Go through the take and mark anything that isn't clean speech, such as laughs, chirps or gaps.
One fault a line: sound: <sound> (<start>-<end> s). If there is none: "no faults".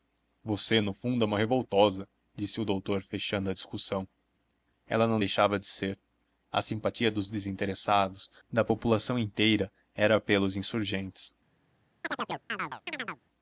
sound: chirp (12.0-13.2 s)